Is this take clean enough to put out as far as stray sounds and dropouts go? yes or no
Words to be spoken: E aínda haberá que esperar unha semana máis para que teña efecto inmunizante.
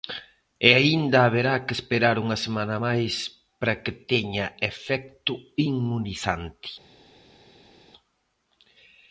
yes